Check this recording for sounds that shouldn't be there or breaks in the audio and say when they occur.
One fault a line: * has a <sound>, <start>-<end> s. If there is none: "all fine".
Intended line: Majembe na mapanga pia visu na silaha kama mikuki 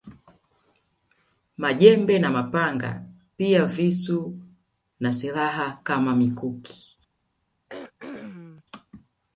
* has a throat clearing, 7.7-8.6 s